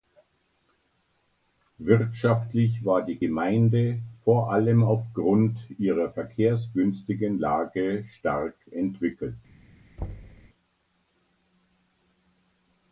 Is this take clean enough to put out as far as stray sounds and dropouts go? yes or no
no